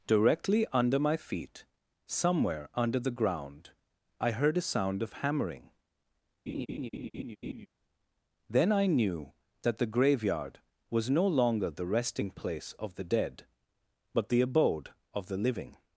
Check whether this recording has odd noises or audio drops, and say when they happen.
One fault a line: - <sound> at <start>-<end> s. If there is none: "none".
- laugh at 6.5-7.7 s